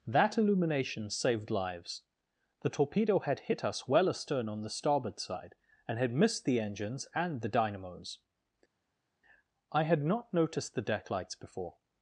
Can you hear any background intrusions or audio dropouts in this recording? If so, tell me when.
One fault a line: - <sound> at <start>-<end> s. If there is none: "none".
none